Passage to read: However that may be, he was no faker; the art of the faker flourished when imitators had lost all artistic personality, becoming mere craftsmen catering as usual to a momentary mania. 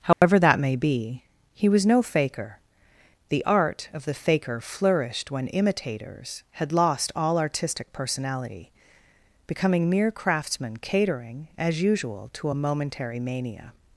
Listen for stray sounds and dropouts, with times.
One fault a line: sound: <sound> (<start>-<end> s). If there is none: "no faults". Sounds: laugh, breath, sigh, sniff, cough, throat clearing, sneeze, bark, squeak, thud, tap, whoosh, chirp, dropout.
sound: dropout (0.1-0.2 s)